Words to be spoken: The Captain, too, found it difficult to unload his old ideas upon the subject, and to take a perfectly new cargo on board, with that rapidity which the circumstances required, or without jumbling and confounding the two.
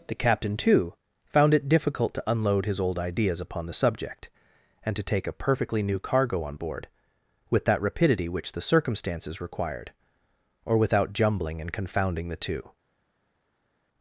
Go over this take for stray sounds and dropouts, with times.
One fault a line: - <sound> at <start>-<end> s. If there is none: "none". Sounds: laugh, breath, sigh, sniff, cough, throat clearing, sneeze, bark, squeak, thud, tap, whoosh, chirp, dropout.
none